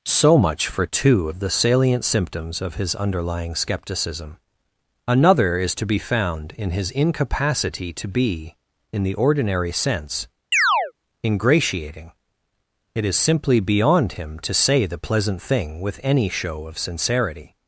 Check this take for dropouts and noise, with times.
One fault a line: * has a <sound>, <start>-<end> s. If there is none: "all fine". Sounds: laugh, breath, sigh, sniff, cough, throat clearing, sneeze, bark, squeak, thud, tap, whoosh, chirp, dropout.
* has a chirp, 10.5-10.9 s